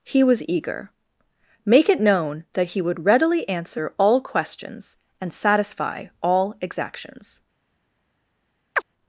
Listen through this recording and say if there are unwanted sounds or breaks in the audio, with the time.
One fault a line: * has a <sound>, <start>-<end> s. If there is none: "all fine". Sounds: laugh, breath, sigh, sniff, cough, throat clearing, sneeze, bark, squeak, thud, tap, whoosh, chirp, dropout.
* has a chirp, 8.8-8.8 s